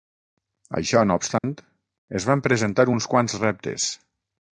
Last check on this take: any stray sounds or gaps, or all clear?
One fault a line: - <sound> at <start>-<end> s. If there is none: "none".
- dropout at 1.4-1.4 s